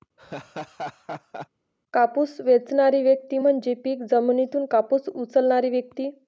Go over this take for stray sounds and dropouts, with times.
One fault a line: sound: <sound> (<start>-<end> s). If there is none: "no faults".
sound: laugh (0.2-1.5 s)